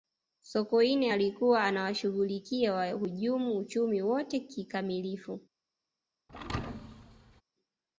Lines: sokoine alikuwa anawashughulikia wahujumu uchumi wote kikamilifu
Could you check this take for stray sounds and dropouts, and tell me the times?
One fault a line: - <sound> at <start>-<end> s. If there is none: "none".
- thud at 6.3-7.4 s